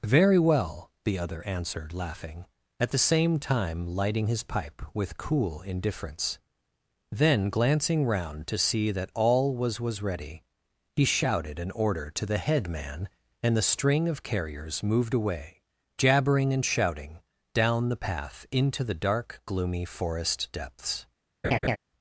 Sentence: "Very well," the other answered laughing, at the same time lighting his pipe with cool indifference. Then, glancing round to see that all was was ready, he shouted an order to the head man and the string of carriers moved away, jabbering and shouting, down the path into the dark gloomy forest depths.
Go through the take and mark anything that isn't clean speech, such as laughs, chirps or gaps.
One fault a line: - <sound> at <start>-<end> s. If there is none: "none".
- laugh at 21.4-21.8 s